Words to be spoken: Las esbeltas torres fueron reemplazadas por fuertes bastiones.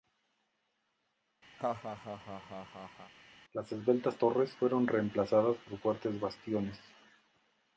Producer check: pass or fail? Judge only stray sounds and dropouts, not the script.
fail